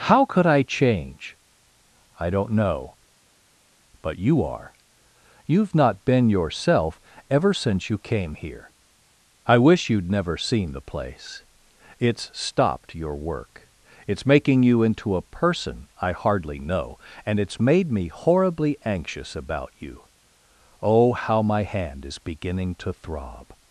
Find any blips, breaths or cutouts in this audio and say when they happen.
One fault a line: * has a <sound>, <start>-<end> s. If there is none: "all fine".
all fine